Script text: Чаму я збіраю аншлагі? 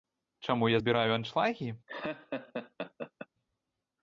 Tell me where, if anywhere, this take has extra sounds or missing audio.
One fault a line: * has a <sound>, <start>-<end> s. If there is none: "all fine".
* has a laugh, 1.9-3.3 s